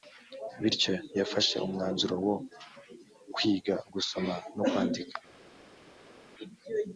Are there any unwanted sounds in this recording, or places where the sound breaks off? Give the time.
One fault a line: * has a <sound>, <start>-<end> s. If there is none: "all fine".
all fine